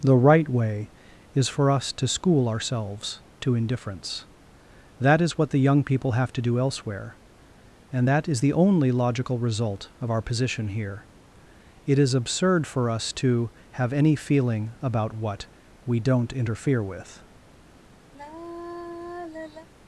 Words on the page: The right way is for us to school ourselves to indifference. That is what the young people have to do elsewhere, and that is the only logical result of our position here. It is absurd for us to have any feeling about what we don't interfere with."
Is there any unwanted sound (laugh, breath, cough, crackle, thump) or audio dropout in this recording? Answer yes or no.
yes